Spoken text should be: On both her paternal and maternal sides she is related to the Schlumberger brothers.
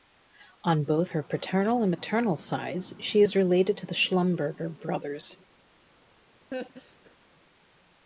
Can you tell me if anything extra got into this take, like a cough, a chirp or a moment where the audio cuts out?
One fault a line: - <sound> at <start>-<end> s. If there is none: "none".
- laugh at 6.5-7.2 s